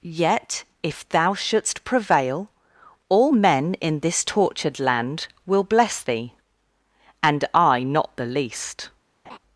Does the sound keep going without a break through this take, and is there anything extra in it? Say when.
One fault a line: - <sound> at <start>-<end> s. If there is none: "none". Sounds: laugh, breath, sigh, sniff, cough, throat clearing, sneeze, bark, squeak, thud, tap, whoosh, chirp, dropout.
- laugh at 9.2-9.4 s